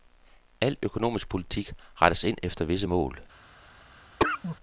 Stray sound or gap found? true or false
true